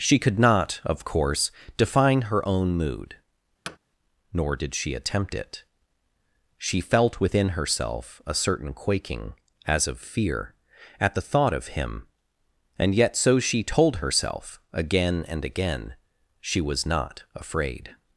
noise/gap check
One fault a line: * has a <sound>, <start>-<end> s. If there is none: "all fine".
* has a thud, 3.7-3.8 s